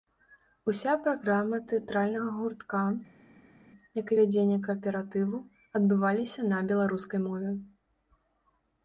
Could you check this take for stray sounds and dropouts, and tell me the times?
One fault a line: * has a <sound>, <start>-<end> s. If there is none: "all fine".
all fine